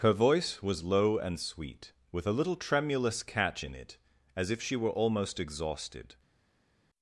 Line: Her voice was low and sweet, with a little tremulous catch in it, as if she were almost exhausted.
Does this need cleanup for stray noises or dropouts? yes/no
no